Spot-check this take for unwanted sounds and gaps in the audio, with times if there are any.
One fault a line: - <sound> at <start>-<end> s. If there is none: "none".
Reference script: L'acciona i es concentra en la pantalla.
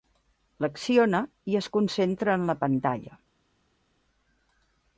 none